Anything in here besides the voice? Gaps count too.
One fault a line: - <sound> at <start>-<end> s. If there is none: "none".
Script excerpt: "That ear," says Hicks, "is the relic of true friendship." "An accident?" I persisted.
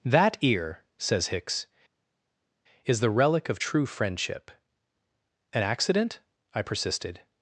none